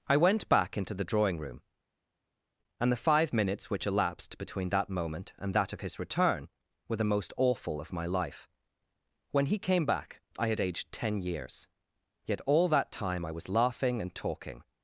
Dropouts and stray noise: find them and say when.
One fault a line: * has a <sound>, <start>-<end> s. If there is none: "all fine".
all fine